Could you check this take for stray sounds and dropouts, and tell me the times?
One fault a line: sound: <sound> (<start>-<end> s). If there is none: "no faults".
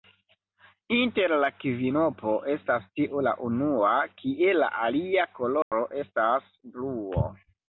sound: dropout (5.6-5.7 s)